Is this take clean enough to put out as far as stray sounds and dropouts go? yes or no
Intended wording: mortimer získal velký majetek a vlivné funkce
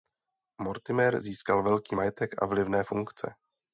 yes